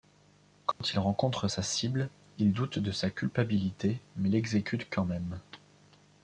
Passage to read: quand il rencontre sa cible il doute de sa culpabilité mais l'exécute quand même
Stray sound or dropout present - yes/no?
yes